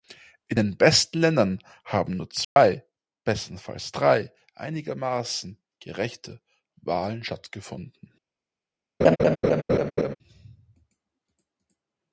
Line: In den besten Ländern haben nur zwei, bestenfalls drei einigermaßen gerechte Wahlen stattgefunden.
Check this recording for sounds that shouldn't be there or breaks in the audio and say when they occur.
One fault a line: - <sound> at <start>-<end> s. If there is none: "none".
- dropout at 2.4-2.6 s
- laugh at 9.0-10.2 s